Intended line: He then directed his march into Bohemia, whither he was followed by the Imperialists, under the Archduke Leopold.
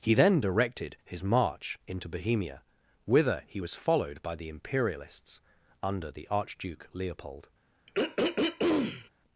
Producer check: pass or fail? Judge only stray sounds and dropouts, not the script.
fail